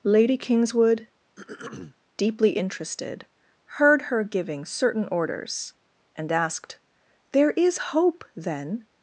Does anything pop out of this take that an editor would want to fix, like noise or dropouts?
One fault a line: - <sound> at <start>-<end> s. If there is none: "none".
- throat clearing at 1.4-2.0 s